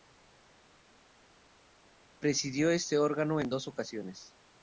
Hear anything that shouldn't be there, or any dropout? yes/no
no